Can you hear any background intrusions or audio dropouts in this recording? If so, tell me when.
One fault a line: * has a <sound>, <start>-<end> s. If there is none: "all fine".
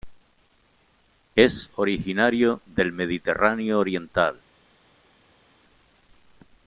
all fine